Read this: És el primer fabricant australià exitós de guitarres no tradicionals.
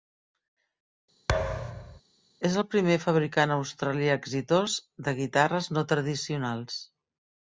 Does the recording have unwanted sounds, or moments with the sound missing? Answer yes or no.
yes